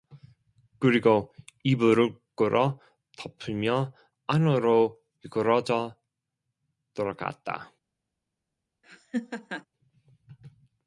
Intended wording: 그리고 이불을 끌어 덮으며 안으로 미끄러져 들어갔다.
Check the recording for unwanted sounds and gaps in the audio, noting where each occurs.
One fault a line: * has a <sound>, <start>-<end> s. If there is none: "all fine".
* has a laugh, 8.8-9.7 s